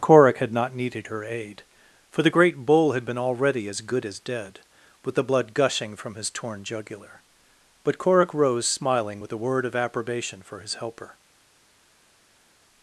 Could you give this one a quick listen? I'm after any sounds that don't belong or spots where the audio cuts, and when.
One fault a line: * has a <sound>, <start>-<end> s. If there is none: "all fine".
all fine